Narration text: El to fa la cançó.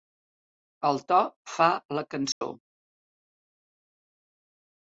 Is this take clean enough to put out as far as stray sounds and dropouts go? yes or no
no